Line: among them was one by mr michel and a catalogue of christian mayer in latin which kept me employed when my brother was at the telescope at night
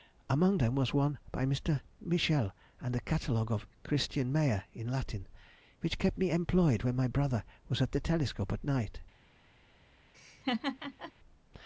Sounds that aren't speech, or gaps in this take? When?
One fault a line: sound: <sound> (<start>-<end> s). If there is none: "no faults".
sound: laugh (10.1-11.1 s)